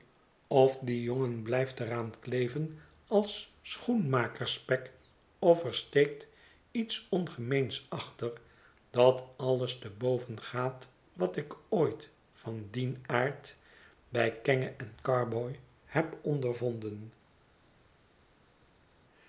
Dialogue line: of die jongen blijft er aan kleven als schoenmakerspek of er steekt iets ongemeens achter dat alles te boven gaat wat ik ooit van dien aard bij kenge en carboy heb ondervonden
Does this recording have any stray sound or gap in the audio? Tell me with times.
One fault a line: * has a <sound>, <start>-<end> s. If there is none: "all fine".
all fine